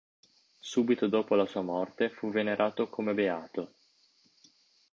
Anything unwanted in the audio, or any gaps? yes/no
no